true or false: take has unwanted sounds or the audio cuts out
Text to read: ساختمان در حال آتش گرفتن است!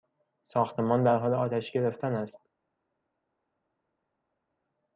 false